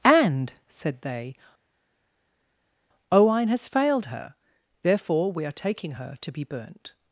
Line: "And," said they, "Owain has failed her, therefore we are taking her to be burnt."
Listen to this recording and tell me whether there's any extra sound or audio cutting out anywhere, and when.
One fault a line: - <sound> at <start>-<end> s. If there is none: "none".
none